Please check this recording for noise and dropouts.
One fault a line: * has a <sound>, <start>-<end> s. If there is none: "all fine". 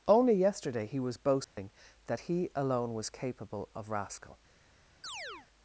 * has a dropout, 1.4-1.6 s
* has a chirp, 5.0-5.5 s